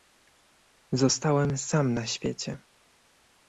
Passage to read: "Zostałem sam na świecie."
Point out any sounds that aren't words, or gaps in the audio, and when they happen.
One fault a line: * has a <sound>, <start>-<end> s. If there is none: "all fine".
all fine